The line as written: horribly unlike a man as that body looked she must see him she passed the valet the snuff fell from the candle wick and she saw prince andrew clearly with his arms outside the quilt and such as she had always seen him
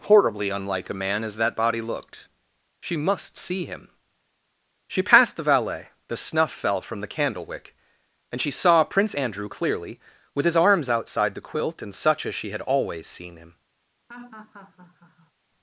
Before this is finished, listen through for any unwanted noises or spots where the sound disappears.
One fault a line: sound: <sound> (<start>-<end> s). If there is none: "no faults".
sound: laugh (14.1-15.3 s)